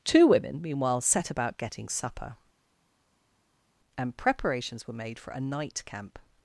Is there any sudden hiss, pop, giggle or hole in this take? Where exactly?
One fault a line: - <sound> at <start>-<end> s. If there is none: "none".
none